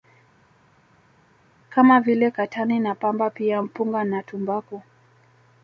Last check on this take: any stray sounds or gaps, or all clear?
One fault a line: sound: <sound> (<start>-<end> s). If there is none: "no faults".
no faults